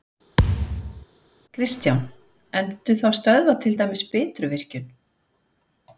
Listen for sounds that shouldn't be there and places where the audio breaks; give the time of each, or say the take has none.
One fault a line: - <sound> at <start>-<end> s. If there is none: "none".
- thud at 0.4-1.1 s